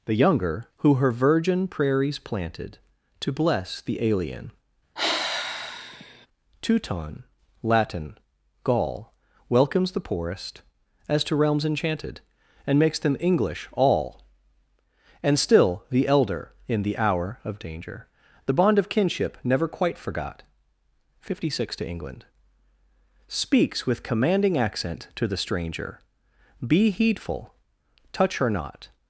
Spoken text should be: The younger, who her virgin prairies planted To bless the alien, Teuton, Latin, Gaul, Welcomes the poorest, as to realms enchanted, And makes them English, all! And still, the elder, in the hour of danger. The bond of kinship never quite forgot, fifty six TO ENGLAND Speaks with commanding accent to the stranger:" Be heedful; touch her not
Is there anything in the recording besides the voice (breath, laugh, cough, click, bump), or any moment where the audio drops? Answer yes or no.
yes